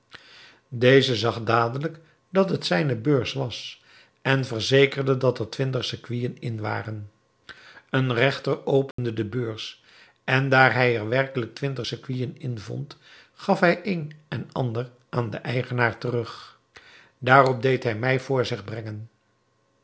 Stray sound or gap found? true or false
true